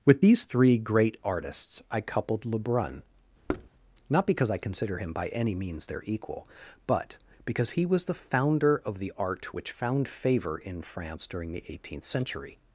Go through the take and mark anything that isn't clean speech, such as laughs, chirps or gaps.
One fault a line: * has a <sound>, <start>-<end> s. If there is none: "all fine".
* has a thud, 3.5-3.7 s